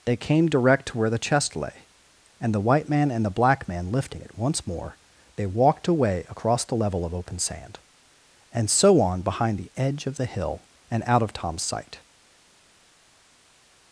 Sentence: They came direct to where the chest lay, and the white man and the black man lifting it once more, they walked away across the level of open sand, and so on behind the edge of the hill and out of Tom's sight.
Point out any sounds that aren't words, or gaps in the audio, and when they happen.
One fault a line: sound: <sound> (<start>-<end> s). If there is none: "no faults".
no faults